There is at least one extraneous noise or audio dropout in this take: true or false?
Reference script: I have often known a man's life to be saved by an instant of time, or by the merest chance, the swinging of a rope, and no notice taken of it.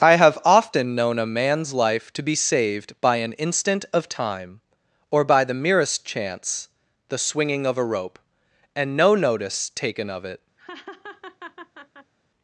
true